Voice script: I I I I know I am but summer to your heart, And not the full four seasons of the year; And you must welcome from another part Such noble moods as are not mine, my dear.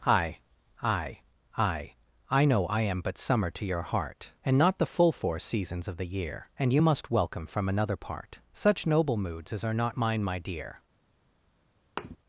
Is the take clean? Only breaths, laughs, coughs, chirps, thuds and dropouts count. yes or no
no